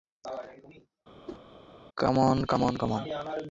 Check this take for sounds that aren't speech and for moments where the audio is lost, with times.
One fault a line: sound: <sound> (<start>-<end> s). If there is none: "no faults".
sound: whoosh (1.3-1.4 s)